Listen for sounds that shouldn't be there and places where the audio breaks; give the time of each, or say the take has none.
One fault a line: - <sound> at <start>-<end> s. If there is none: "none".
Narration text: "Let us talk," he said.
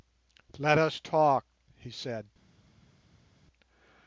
none